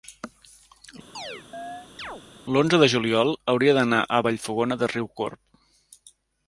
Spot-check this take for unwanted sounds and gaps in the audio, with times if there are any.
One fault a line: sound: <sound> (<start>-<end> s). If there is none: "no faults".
sound: chirp (1.1-2.2 s)